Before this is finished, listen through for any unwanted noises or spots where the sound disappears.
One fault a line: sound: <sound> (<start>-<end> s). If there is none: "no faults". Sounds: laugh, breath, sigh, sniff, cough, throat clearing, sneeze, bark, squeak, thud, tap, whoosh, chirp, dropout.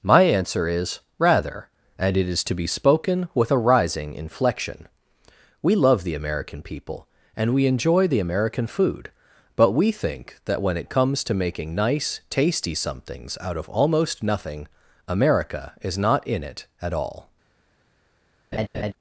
sound: laugh (18.5-18.9 s)